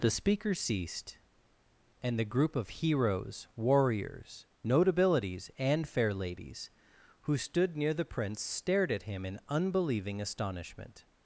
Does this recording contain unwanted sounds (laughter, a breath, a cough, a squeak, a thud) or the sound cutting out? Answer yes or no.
no